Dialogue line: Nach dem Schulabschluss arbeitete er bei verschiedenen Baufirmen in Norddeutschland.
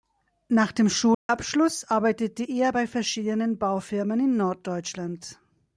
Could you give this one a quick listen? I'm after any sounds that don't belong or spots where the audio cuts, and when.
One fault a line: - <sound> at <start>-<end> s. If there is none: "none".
- dropout at 1.1-1.3 s